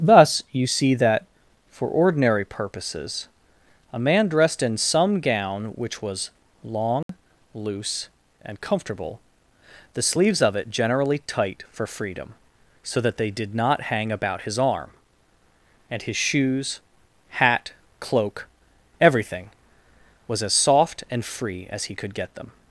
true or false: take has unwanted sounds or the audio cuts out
true